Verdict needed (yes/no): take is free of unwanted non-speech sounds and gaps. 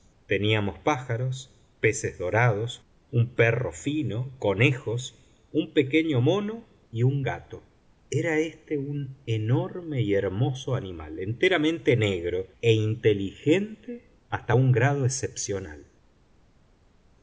yes